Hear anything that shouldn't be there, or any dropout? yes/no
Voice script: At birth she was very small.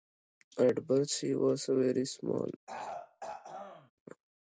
yes